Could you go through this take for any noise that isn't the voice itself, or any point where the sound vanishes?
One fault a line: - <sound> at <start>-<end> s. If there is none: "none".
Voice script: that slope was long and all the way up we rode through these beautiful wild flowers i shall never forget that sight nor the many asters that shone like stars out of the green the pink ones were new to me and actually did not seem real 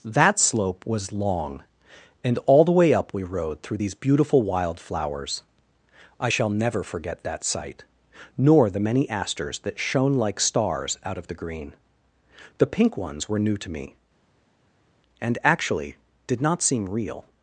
none